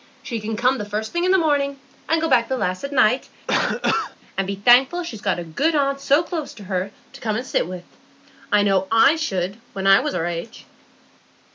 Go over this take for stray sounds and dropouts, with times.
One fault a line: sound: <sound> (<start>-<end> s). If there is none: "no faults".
sound: cough (3.5-4.2 s)